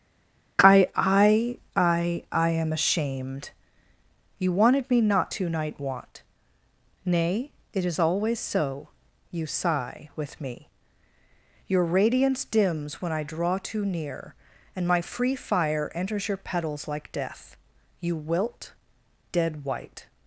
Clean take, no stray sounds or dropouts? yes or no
yes